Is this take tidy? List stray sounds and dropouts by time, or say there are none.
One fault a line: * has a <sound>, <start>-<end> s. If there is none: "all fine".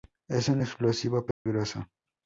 * has a dropout, 1.3-1.5 s